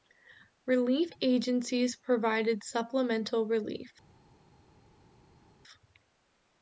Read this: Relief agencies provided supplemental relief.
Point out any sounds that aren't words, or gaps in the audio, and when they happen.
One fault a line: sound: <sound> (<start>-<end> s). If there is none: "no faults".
no faults